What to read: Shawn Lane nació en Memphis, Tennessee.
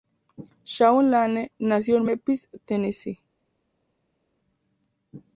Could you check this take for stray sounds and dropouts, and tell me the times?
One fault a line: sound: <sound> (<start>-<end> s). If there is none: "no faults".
no faults